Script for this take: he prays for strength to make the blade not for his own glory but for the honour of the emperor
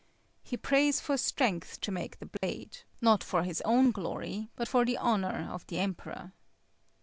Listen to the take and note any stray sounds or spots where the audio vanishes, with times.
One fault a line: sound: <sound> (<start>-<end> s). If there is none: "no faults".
sound: dropout (2.4-2.4 s)